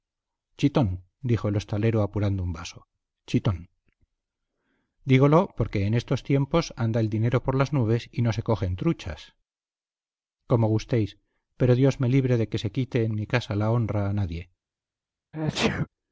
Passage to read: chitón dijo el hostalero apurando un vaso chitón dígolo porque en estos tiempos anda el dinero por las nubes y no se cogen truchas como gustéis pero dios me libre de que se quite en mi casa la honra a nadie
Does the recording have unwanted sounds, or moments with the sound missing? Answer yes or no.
yes